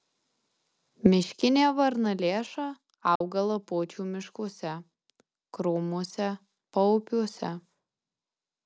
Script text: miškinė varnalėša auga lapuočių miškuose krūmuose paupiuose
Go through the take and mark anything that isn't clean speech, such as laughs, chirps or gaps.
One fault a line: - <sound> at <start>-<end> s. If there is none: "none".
- dropout at 3.2-3.2 s